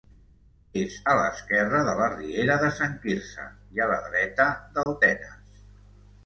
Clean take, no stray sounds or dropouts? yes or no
no